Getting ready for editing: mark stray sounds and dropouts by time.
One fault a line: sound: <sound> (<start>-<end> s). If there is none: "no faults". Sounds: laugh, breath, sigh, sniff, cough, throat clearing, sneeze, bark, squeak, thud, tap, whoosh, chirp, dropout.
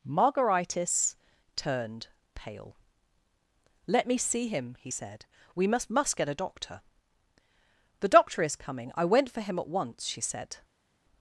no faults